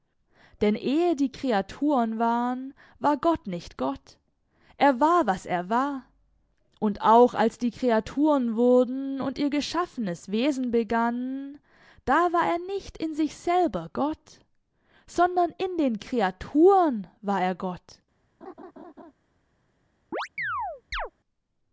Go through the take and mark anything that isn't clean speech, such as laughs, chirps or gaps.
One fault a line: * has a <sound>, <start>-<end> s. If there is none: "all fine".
* has a laugh, 18.4-19.1 s
* has a chirp, 20.1-21.1 s